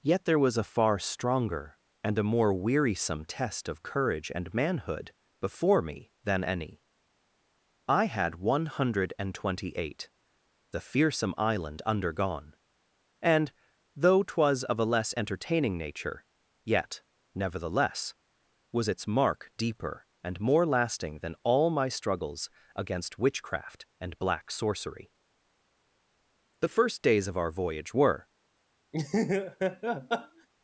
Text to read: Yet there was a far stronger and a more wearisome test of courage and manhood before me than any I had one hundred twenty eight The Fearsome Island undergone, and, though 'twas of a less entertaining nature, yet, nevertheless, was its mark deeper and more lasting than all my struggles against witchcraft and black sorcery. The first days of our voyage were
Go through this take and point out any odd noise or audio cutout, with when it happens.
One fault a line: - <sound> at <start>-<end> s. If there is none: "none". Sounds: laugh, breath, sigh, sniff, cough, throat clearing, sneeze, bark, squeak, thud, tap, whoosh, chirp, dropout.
- laugh at 28.9-30.5 s